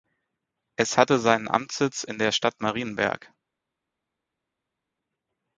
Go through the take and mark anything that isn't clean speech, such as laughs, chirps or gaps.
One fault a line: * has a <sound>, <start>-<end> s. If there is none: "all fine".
all fine